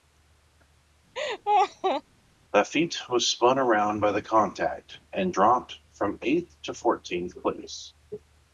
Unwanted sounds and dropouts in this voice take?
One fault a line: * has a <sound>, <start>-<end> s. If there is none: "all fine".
* has a laugh, 1.1-2.0 s